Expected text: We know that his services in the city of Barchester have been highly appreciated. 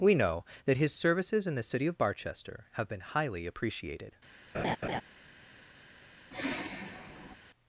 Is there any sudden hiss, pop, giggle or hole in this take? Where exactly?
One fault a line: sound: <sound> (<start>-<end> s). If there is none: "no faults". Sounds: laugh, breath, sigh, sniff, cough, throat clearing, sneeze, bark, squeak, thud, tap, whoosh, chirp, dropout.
sound: laugh (4.5-5.0 s)
sound: sigh (6.3-7.4 s)